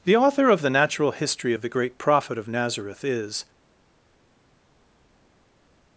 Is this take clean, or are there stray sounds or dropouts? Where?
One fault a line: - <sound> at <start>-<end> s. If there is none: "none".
none